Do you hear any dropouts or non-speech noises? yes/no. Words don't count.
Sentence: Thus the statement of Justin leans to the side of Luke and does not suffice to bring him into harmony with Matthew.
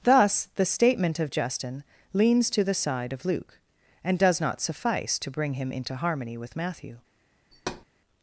yes